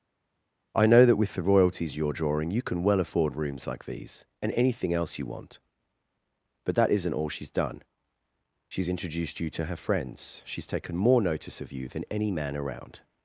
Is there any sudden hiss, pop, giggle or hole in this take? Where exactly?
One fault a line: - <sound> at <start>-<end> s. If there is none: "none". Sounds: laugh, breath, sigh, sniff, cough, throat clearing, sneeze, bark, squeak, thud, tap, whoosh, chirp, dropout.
none